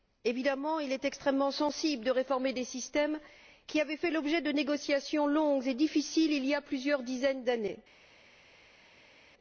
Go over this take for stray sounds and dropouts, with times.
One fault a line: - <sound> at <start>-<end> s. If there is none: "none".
none